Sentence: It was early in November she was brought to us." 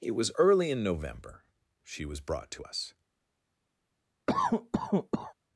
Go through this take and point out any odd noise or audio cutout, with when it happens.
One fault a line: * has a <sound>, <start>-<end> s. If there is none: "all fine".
* has a cough, 4.3-5.3 s